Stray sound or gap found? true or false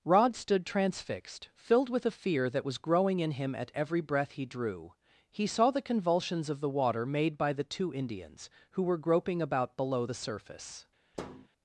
true